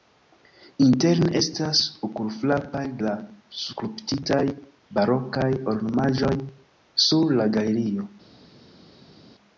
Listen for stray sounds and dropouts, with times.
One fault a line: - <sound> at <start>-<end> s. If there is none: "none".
none